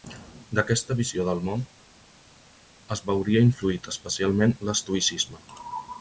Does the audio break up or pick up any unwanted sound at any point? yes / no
no